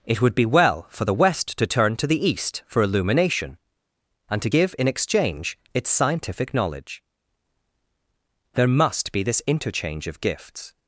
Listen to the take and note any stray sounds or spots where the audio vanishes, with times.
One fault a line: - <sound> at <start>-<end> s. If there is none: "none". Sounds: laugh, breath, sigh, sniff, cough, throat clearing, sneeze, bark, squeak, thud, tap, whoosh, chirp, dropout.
none